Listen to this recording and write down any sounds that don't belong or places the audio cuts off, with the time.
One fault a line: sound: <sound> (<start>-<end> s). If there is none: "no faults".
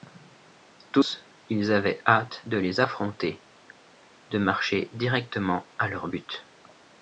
no faults